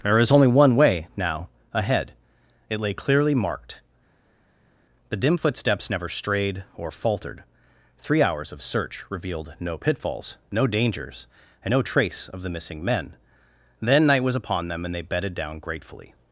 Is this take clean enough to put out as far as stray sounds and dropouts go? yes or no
yes